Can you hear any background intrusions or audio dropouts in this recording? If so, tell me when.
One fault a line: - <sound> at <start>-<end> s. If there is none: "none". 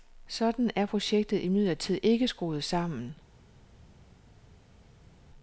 none